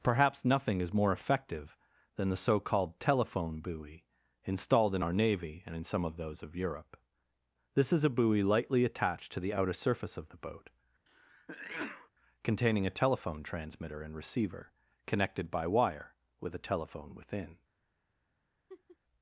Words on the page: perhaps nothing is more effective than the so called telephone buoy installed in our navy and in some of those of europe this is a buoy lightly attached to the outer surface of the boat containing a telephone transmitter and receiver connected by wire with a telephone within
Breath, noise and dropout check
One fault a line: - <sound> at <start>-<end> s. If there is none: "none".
- sneeze at 11.1-12.1 s
- laugh at 18.7-19.0 s